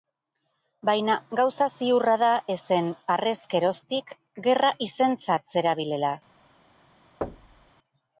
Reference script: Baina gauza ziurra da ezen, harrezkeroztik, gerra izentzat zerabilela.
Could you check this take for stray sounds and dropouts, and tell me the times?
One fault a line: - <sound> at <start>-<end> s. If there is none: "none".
- thud at 7.2-7.7 s